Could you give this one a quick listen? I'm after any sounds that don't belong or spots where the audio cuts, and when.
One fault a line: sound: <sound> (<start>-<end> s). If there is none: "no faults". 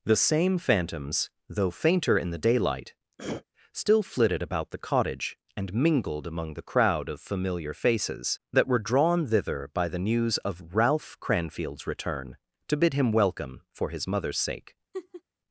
sound: throat clearing (3.2-3.4 s)
sound: laugh (14.9-15.2 s)